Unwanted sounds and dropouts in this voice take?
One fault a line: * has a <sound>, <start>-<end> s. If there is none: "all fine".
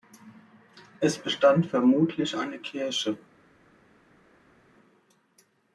all fine